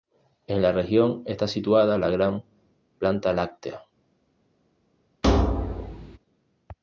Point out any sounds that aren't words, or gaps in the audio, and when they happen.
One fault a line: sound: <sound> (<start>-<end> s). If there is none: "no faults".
sound: thud (5.2-6.2 s)